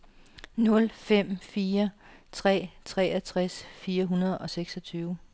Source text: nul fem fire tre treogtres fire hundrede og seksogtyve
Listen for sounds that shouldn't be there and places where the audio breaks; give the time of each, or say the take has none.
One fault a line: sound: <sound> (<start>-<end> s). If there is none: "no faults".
no faults